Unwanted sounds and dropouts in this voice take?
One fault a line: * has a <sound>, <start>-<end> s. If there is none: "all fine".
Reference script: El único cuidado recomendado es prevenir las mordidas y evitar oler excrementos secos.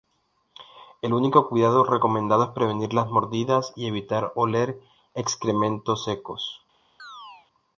* has a chirp, 7.0-7.5 s